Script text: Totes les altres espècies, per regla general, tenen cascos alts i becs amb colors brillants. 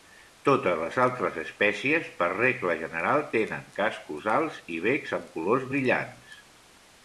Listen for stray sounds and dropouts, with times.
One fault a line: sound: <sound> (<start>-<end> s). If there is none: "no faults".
no faults